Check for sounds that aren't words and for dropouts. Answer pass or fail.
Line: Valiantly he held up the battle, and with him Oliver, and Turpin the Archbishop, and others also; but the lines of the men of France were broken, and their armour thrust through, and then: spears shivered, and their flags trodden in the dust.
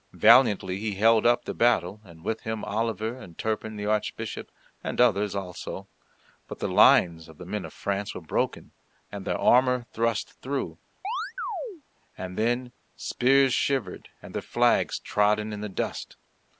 fail